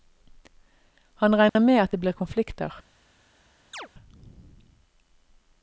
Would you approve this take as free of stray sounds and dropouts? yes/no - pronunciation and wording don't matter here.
no